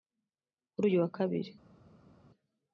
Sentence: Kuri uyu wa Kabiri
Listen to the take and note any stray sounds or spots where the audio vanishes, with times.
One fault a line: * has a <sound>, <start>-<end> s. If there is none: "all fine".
all fine